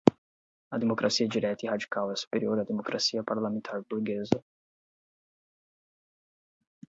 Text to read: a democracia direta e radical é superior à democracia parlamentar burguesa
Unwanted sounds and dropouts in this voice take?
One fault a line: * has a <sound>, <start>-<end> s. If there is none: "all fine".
all fine